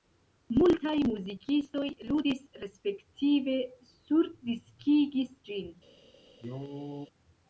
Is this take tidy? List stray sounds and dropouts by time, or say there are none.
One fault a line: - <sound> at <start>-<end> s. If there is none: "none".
- cough at 6.4-7.1 s